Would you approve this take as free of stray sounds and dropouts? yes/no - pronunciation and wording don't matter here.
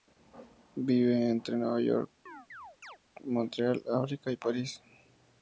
no